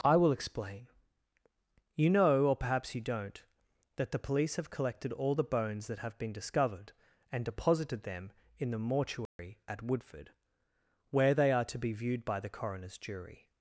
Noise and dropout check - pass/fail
fail